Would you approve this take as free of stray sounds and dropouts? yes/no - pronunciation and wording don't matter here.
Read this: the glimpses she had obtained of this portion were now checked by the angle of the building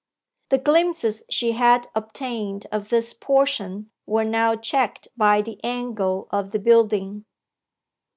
yes